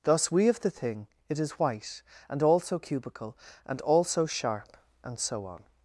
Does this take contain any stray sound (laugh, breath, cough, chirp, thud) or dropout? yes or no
no